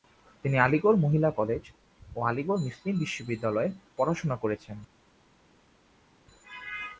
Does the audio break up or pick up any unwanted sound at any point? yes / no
no